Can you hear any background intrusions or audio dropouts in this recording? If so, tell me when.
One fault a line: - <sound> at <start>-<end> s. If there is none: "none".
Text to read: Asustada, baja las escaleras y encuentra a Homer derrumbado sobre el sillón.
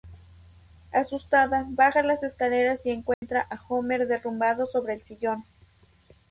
- dropout at 3.1-3.2 s